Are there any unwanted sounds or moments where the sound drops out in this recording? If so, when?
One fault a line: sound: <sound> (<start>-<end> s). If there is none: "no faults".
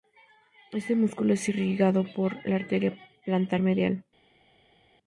no faults